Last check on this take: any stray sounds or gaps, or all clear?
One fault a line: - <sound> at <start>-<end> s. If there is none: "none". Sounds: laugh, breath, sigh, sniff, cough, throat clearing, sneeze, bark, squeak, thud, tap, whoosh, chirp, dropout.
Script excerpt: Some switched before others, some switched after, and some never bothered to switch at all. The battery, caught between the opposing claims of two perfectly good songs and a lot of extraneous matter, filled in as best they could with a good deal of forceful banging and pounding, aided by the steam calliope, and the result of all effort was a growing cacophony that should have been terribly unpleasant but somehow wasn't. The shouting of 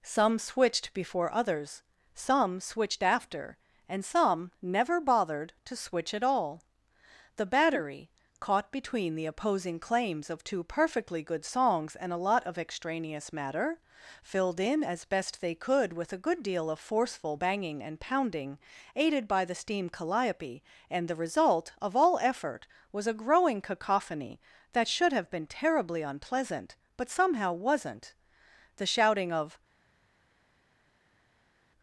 none